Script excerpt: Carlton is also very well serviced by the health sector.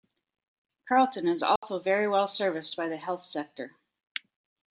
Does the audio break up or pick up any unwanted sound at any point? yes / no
yes